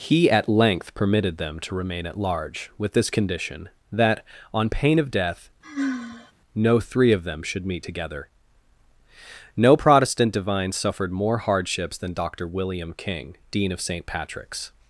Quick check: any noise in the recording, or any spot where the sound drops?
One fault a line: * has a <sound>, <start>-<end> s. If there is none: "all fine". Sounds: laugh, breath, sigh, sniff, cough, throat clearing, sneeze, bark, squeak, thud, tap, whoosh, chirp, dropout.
* has a sigh, 5.6-6.3 s